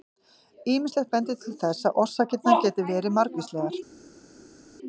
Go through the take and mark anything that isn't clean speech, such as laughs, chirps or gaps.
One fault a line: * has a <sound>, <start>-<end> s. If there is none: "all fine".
all fine